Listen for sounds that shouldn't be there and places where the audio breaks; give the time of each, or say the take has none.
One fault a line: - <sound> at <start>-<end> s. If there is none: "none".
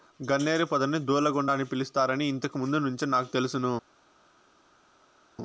none